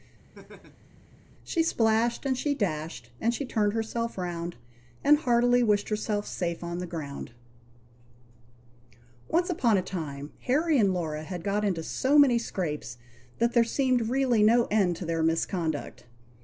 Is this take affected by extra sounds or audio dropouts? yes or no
yes